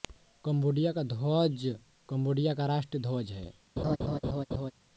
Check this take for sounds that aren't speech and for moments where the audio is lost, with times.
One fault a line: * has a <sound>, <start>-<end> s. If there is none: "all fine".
* has a laugh, 3.8-4.7 s